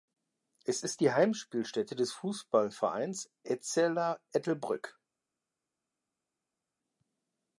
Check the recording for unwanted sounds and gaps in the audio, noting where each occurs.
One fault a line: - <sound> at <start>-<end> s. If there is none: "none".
none